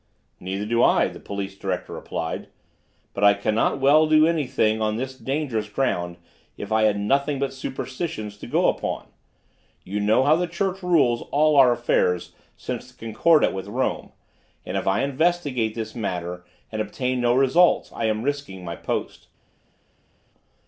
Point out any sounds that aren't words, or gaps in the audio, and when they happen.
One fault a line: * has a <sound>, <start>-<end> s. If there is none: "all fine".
all fine